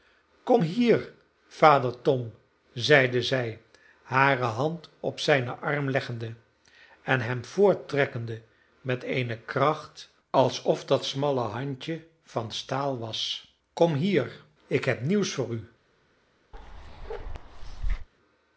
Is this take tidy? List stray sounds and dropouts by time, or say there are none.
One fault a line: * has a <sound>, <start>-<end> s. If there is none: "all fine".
* has a bark, 16.5-18.1 s